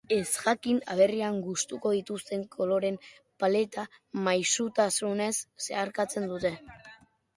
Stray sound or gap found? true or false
false